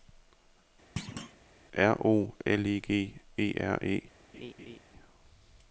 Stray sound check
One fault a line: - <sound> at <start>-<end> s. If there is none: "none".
- thud at 1.0-1.4 s
- laugh at 4.3-4.8 s